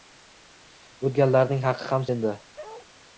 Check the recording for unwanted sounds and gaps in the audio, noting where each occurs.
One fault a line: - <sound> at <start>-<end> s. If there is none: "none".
- bark at 2.6-2.9 s